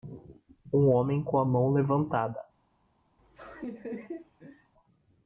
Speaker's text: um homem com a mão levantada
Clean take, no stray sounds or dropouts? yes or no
no